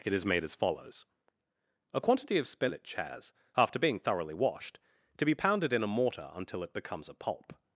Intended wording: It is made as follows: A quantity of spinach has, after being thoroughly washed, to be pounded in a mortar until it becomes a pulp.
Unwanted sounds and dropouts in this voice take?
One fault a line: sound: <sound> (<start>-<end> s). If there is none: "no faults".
no faults